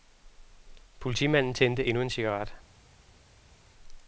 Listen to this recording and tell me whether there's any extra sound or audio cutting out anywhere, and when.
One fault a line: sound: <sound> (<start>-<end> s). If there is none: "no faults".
no faults